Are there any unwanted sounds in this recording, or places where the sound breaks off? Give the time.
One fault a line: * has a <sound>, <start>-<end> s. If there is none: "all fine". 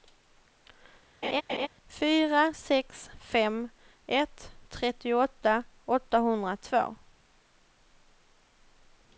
* has a laugh, 1.2-1.7 s